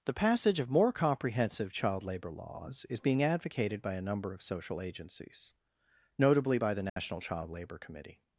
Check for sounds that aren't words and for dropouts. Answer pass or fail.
fail